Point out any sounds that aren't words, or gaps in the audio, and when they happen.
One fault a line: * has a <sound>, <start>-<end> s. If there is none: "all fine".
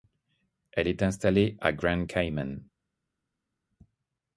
all fine